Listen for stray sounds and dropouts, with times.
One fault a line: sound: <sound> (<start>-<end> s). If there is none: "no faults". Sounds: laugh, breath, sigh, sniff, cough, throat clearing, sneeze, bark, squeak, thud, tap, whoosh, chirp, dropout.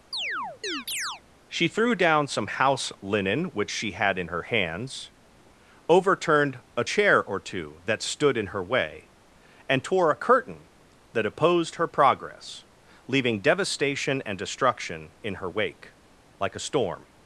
sound: chirp (0.1-1.2 s)